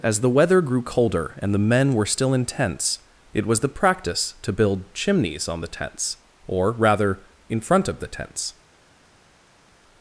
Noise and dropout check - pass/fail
pass